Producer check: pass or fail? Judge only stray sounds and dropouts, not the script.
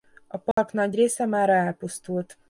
fail